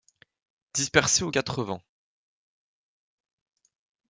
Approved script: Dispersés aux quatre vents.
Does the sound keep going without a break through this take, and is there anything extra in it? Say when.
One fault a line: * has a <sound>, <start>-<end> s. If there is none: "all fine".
all fine